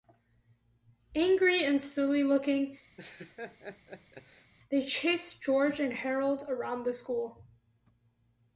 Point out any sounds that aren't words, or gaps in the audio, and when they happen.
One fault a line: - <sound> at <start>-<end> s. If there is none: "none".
- laugh at 3.0-4.5 s